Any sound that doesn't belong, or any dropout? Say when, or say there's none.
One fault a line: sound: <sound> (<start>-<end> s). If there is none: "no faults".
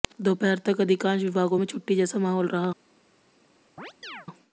sound: chirp (3.8-4.3 s)